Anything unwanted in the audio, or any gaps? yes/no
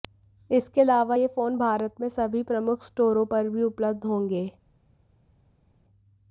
no